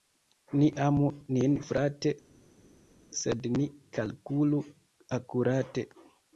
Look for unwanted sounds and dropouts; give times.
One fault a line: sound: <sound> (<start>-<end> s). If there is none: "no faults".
no faults